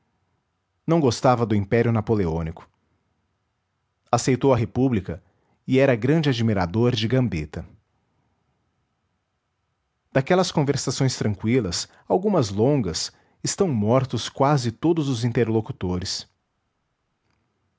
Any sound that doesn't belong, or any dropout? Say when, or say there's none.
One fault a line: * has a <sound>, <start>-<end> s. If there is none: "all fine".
all fine